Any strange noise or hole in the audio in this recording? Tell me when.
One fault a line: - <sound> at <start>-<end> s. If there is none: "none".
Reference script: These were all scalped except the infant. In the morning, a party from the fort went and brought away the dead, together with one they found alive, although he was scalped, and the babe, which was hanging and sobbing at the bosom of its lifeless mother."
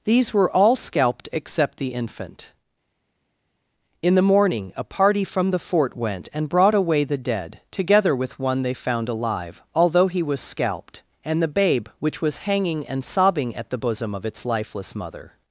none